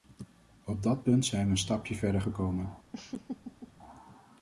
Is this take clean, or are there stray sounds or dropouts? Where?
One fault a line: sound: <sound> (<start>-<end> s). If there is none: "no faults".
sound: laugh (2.9-3.7 s)